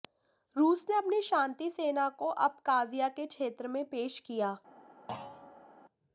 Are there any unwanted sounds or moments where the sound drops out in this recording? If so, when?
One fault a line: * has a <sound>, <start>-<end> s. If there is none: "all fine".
* has a thud, 5.1-5.7 s